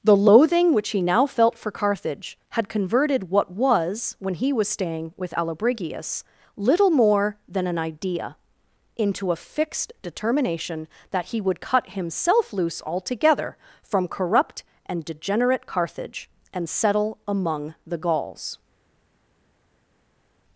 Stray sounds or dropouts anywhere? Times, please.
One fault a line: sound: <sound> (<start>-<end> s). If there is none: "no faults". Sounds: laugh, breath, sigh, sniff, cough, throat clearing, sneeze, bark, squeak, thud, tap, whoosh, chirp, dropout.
no faults